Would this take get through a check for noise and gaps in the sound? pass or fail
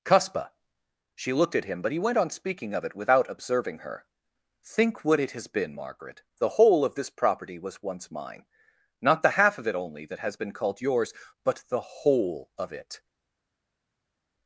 pass